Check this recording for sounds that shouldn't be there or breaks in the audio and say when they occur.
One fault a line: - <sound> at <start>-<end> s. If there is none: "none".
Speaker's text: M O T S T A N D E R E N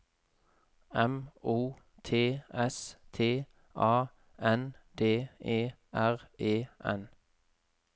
none